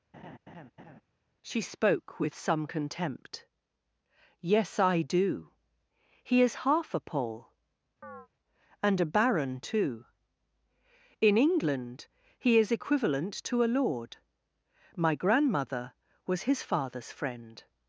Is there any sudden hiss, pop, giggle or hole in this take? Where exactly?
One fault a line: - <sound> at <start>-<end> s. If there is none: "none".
- laugh at 0.1-1.0 s
- chirp at 8.0-8.3 s